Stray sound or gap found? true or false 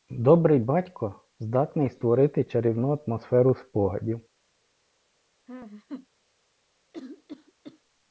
true